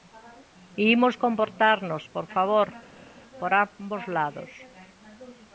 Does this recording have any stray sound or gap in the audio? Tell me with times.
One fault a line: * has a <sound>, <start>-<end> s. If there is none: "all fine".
all fine